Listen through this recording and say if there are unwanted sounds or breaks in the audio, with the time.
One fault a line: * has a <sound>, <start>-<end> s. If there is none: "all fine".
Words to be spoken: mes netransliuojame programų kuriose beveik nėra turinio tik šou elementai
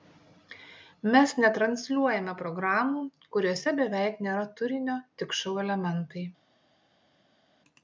all fine